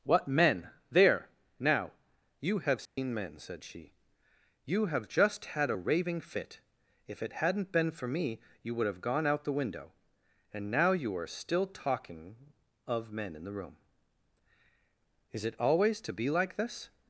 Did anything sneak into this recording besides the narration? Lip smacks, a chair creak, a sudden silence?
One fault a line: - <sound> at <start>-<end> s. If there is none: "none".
- dropout at 2.9-3.0 s